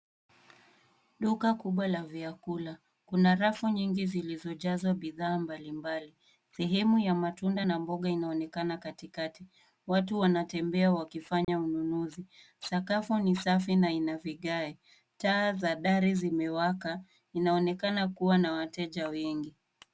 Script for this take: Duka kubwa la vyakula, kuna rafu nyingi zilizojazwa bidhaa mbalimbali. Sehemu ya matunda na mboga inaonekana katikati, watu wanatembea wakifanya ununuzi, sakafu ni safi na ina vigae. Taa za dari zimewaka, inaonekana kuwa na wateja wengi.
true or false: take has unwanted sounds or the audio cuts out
true